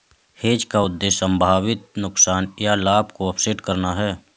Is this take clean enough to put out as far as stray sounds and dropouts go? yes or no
yes